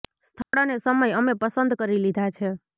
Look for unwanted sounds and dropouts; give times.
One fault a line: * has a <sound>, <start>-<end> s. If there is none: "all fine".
* has a dropout, 0.4-0.5 s